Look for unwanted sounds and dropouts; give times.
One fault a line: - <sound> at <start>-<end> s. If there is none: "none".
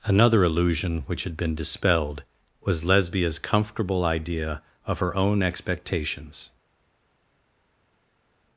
none